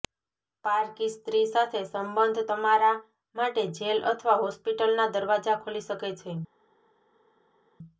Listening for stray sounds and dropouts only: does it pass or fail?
pass